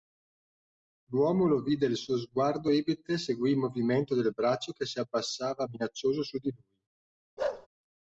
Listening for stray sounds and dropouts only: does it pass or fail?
fail